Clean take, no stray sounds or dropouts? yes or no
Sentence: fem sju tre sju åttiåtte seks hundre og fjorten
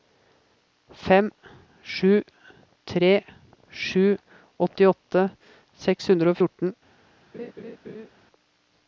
no